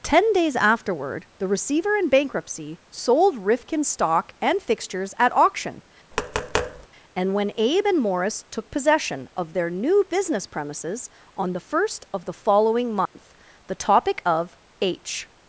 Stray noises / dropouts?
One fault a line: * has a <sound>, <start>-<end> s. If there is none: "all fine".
* has a tap, 6.1-6.9 s
* has a dropout, 13.1-13.2 s